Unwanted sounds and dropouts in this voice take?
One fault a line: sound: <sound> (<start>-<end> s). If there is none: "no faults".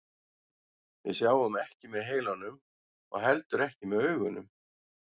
no faults